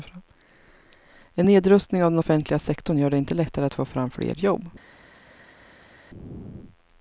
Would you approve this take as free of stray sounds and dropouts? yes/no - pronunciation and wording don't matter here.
yes